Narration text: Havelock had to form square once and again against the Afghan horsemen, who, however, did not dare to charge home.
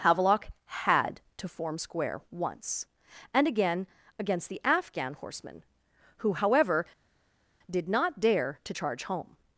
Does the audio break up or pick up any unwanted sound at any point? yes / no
no